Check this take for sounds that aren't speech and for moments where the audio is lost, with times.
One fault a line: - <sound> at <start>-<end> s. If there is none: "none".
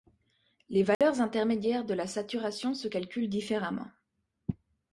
- dropout at 0.9-1.0 s